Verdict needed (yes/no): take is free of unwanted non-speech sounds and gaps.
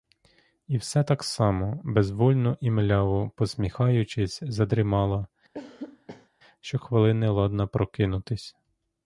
no